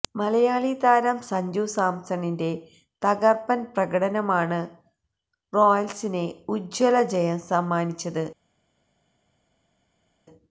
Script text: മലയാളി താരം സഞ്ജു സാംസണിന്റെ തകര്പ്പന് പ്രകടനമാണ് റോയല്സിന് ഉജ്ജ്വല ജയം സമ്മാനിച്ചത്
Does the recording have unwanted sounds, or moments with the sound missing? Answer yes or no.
no